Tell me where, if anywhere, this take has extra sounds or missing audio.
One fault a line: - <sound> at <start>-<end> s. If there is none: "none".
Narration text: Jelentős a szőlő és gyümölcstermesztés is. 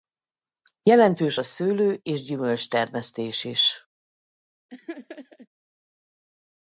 - laugh at 4.7-5.5 s